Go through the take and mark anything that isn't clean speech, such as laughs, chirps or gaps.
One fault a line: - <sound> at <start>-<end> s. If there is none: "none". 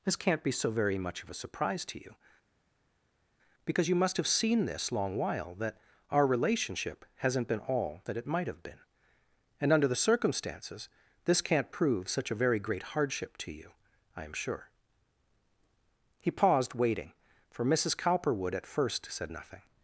none